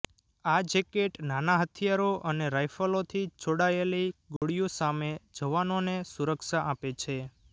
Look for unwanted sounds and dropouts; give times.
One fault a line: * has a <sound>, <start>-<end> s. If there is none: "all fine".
* has a dropout, 4.4-4.4 s